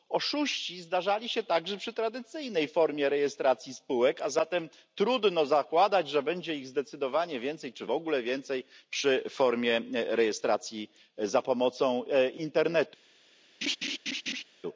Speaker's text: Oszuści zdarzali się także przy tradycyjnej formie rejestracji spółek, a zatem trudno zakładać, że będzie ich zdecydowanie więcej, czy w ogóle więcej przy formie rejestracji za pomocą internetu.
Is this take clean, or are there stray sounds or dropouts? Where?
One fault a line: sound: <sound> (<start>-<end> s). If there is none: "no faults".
sound: laugh (13.6-14.4 s)